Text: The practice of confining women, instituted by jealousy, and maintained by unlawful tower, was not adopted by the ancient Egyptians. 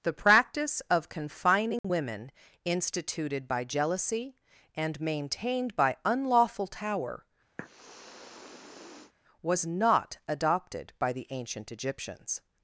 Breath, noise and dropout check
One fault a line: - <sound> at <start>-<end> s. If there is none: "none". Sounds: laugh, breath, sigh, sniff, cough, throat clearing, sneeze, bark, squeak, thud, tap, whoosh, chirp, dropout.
- dropout at 1.8-1.8 s
- sniff at 7.6-9.1 s